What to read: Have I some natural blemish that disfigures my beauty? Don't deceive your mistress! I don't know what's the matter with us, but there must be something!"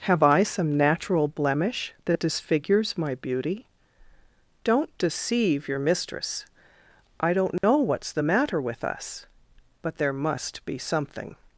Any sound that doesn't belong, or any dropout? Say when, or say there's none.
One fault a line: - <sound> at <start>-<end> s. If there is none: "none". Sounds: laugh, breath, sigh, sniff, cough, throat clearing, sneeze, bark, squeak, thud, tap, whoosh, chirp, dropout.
- dropout at 7.6-7.6 s